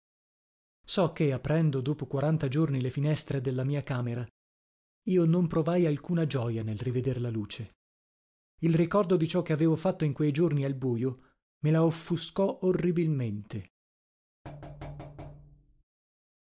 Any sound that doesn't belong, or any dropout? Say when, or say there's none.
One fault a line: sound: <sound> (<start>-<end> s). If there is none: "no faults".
sound: thud (14.4-15.8 s)